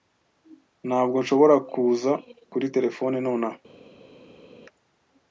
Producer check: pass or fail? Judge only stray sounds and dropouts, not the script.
pass